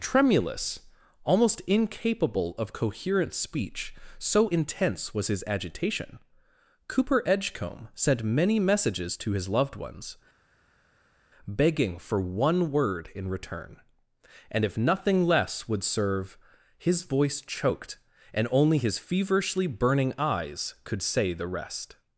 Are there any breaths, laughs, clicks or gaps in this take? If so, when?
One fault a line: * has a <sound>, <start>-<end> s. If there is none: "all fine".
all fine